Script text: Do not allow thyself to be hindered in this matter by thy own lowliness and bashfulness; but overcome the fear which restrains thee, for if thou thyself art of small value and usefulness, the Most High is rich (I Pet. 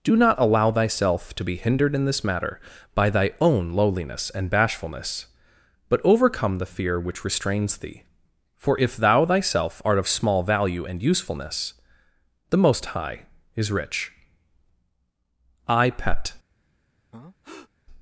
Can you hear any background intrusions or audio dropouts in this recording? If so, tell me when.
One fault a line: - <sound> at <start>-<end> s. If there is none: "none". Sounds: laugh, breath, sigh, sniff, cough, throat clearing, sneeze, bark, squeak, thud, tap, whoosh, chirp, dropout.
- breath at 17.1-17.7 s